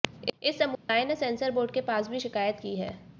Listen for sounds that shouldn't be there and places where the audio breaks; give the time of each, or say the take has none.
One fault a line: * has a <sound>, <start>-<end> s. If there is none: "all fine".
* has a dropout, 0.7-0.9 s